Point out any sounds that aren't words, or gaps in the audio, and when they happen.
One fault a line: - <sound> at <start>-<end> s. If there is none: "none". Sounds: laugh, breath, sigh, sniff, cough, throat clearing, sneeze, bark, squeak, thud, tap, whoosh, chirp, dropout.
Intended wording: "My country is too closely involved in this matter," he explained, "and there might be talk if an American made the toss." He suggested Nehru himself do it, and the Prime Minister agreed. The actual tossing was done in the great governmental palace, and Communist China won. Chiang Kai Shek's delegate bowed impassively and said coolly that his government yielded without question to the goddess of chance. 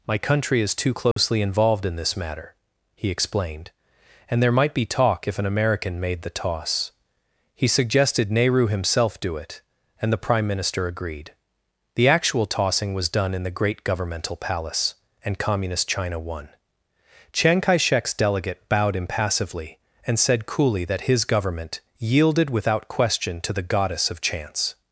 - dropout at 1.1-1.2 s